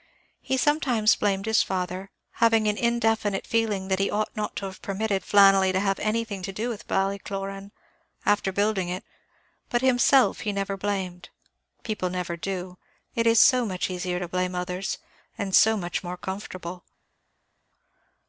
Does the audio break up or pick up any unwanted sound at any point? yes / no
no